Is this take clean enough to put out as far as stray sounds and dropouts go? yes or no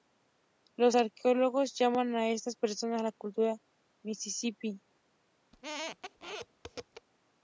no